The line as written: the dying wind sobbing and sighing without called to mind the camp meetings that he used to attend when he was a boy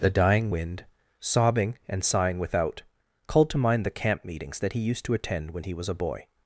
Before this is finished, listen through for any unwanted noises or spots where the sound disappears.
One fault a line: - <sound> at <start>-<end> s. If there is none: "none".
none